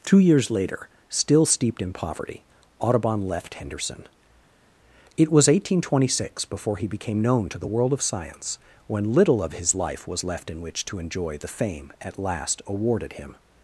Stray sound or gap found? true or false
false